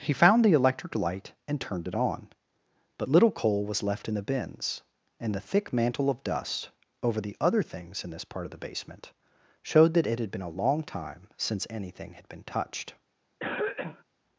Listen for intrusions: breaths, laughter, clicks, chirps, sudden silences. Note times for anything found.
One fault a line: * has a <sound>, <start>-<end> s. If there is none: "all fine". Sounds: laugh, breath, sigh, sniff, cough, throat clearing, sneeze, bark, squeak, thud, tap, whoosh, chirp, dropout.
* has a cough, 13.4-14.0 s